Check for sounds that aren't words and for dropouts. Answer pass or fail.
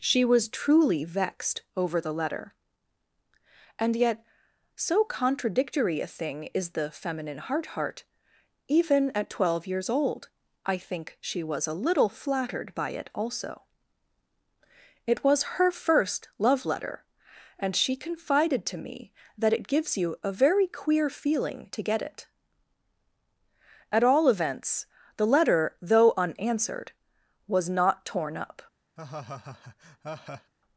fail